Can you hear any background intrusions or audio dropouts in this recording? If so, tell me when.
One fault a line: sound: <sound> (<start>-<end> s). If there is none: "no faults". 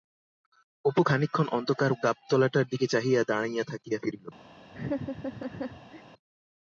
sound: laugh (4.7-6.0 s)